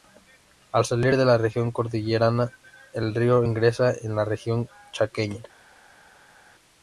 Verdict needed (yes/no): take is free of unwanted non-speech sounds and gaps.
yes